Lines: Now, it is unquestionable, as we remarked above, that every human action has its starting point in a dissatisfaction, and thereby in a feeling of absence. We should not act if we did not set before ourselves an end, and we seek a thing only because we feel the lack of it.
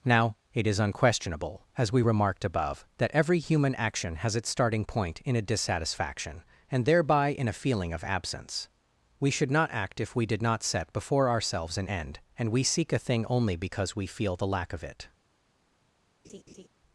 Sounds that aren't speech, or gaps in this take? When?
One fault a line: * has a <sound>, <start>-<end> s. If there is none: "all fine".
* has a laugh, 16.2-16.7 s